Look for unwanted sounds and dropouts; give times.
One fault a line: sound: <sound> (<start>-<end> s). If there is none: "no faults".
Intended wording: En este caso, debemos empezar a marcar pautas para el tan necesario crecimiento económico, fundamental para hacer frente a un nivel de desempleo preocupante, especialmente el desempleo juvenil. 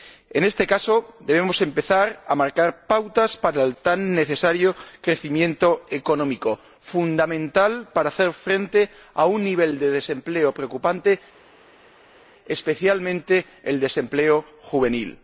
no faults